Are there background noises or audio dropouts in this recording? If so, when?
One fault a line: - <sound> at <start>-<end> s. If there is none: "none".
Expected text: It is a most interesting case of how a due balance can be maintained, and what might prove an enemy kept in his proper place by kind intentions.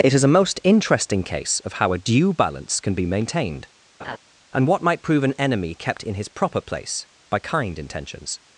- laugh at 4.0-4.2 s